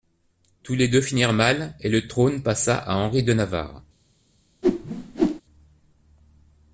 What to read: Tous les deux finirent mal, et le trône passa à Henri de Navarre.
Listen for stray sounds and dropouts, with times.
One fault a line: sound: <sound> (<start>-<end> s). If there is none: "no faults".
sound: whoosh (4.6-5.4 s)